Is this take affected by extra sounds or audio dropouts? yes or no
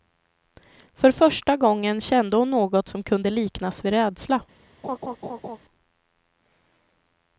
yes